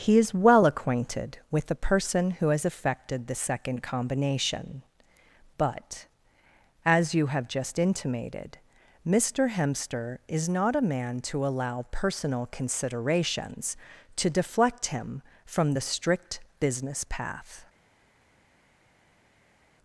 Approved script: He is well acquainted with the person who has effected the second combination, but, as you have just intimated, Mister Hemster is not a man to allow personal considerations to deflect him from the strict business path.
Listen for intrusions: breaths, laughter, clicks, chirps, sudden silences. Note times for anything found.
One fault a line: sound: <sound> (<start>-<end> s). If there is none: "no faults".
no faults